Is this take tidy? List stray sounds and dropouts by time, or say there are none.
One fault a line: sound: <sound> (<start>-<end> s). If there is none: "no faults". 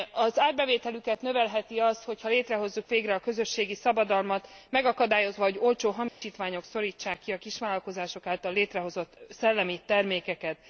sound: dropout (6.1-6.2 s)